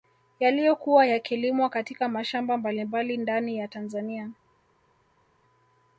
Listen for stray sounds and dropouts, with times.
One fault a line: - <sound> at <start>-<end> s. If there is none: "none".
none